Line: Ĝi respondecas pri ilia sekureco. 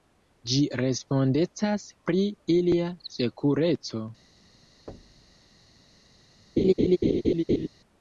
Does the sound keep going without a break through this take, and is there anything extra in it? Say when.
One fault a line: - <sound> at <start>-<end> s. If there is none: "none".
- thud at 4.9-5.4 s
- laugh at 6.6-7.7 s